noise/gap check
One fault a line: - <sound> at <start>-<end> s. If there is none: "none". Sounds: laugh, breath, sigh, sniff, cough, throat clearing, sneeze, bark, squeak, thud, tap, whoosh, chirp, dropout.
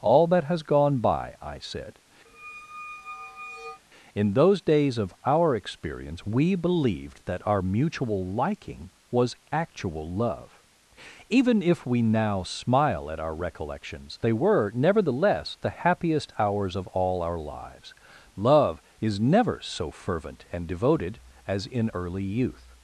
- squeak at 2.3-3.8 s